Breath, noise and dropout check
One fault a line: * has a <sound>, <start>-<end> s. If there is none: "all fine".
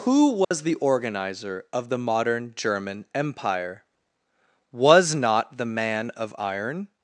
* has a dropout, 0.4-0.5 s